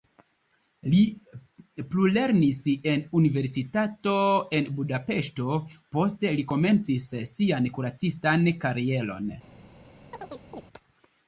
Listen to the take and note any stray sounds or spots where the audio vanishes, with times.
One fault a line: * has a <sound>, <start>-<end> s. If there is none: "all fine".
* has a chirp, 10.1-10.6 s